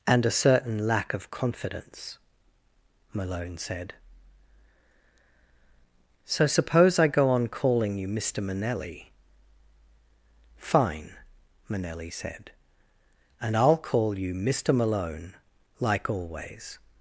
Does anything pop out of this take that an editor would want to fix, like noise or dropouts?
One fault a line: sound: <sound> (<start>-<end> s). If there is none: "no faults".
no faults